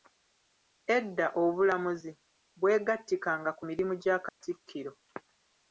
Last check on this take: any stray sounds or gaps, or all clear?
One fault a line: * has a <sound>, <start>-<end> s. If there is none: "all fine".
* has a dropout, 4.3-4.4 s